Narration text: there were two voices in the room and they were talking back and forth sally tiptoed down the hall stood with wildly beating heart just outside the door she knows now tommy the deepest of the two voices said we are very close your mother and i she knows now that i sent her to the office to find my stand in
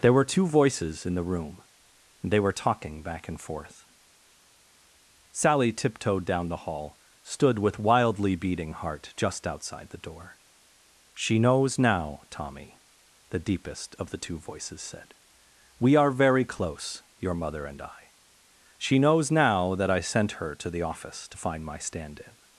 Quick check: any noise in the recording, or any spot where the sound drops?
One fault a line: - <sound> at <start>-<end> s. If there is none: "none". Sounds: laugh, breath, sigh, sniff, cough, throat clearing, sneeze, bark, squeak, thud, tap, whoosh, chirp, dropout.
none